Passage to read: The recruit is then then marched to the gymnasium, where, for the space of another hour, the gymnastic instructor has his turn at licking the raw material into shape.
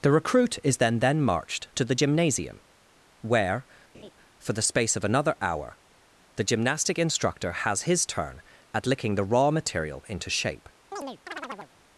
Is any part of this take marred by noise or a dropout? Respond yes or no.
yes